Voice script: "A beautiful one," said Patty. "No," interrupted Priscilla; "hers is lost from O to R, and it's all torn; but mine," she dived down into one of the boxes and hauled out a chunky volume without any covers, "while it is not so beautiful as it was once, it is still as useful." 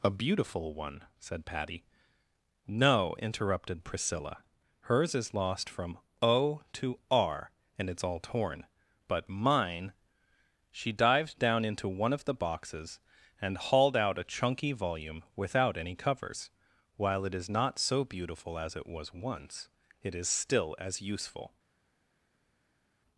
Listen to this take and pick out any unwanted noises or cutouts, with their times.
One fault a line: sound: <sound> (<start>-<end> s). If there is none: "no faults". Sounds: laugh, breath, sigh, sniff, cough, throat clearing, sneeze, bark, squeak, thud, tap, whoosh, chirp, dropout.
no faults